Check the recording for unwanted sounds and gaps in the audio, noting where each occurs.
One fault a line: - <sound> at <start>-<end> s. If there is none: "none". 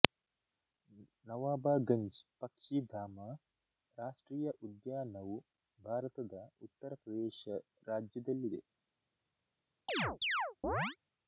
- chirp at 9.9-11.0 s